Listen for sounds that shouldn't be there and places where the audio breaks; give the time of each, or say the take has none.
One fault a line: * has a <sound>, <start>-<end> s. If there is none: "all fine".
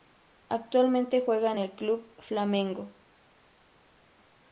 all fine